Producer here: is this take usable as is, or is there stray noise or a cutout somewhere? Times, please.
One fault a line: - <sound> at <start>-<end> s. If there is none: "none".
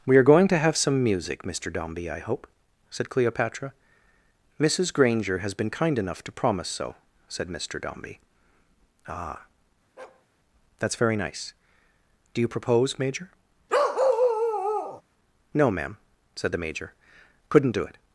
- bark at 10.0-10.3 s
- bark at 13.7-15.0 s